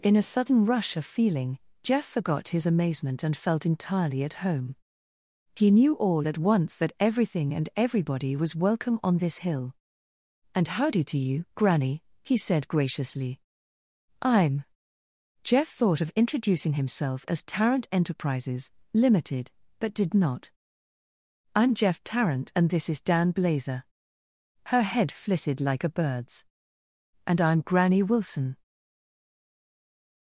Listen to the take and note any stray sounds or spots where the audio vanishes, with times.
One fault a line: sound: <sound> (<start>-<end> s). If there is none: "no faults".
no faults